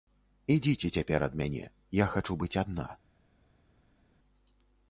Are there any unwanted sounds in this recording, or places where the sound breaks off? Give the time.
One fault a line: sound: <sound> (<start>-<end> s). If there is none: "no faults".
no faults